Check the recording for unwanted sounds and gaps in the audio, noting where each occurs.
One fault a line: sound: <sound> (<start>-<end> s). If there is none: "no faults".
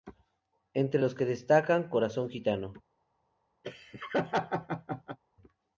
sound: laugh (3.6-5.2 s)